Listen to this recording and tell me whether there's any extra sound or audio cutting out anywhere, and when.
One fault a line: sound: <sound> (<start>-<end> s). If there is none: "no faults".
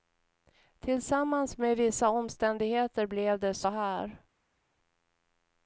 no faults